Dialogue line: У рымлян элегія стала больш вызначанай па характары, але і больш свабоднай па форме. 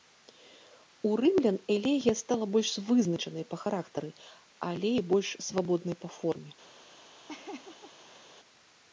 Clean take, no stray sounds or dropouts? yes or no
no